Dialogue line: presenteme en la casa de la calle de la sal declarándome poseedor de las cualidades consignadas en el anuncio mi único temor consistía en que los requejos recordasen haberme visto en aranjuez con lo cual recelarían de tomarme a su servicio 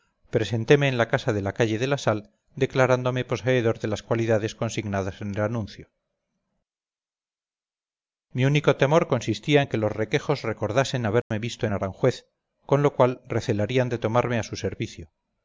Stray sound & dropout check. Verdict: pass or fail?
fail